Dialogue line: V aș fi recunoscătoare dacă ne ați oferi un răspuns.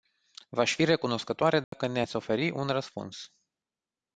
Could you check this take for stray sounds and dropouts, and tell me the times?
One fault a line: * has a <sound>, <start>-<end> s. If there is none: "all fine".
* has a dropout, 1.6-1.7 s